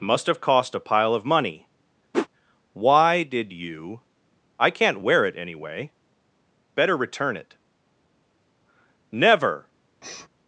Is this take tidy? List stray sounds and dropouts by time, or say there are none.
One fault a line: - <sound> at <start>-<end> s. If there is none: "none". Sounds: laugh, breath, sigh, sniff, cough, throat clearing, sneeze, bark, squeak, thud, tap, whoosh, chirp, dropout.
- whoosh at 2.1-2.3 s
- sniff at 10.0-10.3 s